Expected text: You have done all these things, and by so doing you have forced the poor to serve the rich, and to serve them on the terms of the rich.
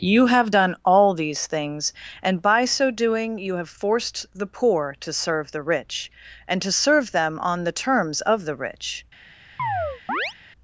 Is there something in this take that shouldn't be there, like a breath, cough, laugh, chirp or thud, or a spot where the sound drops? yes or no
yes